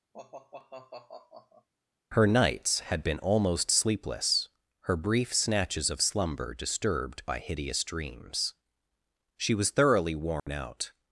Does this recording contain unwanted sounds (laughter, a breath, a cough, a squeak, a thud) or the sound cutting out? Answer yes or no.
yes